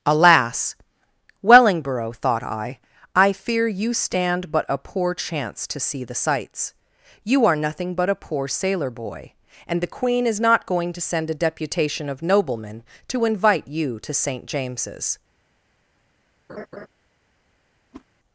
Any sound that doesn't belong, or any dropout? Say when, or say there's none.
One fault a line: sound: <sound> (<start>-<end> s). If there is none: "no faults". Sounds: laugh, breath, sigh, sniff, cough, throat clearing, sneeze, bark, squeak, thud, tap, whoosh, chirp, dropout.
sound: laugh (16.5-16.9 s)
sound: whoosh (17.9-18.0 s)